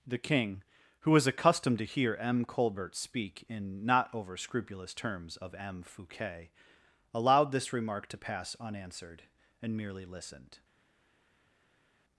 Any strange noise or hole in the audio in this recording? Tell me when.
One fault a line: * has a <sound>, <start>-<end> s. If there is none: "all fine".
all fine